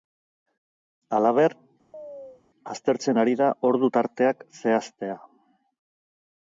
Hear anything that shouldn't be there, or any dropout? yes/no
yes